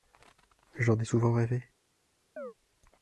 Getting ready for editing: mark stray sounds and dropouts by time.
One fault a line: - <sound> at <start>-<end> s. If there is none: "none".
- chirp at 2.4-2.5 s